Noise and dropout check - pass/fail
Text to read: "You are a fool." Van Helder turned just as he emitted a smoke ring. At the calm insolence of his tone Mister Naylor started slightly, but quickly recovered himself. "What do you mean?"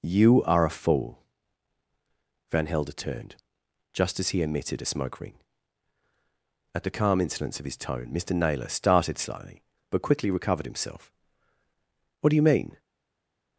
pass